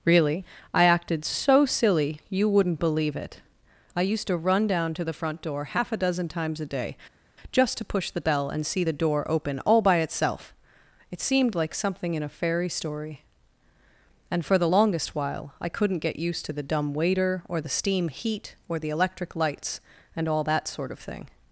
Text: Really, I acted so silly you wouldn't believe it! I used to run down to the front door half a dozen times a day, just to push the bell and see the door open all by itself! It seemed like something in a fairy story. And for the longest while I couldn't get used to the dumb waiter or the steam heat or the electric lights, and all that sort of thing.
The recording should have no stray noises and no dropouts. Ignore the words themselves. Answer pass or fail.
pass